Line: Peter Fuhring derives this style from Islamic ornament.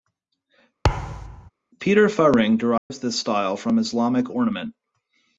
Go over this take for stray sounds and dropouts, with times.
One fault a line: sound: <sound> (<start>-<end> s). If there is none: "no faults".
sound: thud (0.8-1.5 s)
sound: dropout (2.8-2.9 s)